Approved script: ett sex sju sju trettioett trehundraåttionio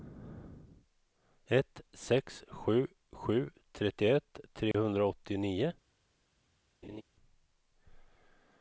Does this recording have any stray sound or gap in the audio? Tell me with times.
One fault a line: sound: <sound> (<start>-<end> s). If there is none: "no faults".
sound: dropout (4.7-4.7 s)
sound: laugh (6.8-7.0 s)